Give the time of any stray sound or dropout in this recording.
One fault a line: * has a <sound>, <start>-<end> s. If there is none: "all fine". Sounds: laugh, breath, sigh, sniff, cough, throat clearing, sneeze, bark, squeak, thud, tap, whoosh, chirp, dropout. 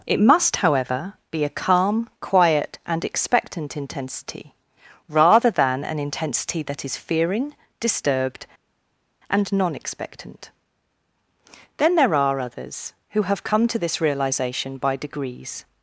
all fine